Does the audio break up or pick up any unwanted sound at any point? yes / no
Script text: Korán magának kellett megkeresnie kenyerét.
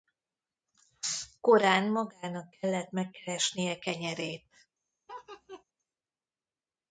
yes